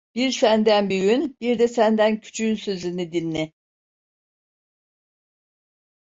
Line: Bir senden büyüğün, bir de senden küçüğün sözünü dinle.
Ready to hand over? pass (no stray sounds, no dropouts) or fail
pass